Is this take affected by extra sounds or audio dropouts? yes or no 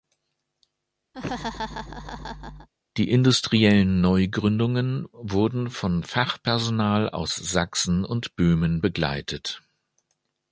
yes